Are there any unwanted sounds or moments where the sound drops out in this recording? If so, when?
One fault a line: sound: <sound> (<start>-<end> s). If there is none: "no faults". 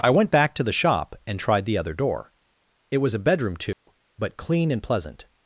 sound: dropout (3.7-3.9 s)